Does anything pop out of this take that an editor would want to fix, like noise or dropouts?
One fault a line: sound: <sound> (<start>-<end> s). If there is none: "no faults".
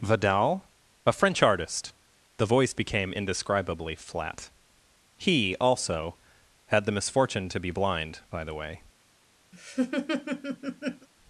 sound: laugh (9.5-11.1 s)